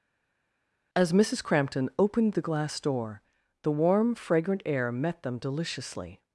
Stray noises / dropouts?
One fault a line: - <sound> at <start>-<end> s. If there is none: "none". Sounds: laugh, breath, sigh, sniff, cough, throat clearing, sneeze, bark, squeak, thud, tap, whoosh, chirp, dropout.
none